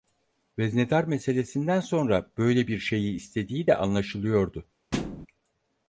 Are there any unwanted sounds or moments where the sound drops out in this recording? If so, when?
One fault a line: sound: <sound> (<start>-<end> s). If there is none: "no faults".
sound: thud (4.9-5.3 s)